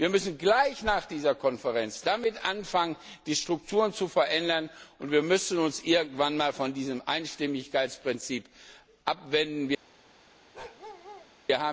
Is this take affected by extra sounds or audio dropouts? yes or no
yes